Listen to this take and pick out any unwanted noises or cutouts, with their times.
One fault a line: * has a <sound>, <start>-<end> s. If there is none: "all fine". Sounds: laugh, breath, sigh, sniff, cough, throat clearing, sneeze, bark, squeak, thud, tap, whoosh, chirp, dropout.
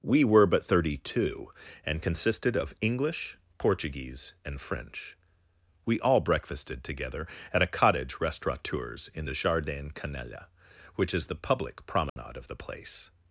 * has a dropout, 12.1-12.2 s